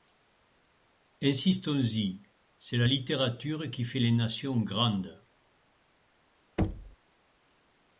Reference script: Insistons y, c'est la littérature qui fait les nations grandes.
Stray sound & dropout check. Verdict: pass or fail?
fail